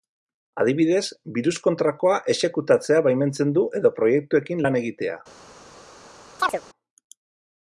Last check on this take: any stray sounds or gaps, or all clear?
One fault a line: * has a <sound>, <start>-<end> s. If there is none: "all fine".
* has a chirp, 6.4-6.6 s